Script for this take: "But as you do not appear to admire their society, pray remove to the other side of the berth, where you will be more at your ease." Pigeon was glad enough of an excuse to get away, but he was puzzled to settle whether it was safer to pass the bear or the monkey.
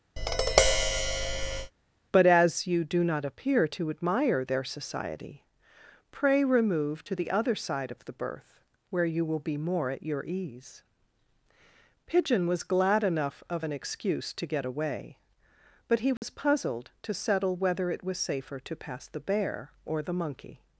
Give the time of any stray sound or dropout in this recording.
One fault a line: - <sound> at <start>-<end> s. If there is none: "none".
- tap at 0.2-1.7 s
- dropout at 16.2-16.2 s